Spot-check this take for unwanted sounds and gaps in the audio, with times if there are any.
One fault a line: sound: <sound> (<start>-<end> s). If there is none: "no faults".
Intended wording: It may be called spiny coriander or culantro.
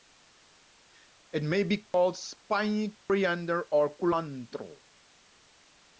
sound: dropout (1.9-1.9 s)
sound: dropout (3.0-3.1 s)